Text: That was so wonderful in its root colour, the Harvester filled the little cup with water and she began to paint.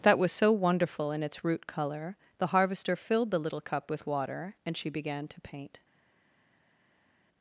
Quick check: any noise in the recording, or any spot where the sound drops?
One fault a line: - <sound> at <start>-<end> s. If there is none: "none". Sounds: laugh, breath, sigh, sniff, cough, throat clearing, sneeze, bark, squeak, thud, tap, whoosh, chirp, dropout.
none